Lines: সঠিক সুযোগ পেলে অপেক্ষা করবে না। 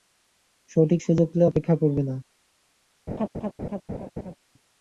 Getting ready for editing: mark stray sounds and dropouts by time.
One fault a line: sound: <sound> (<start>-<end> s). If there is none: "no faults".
sound: laugh (3.1-4.4 s)